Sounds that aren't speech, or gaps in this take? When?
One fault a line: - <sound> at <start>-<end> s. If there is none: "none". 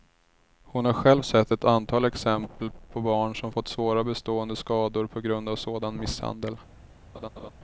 - laugh at 7.1-7.5 s